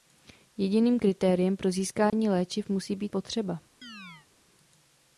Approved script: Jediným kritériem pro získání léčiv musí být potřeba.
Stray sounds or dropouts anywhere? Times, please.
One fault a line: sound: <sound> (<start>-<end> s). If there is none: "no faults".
sound: dropout (2.1-2.1 s)
sound: chirp (3.8-4.3 s)